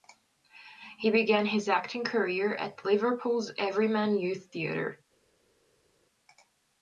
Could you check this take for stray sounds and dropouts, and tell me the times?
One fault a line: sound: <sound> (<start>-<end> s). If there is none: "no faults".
no faults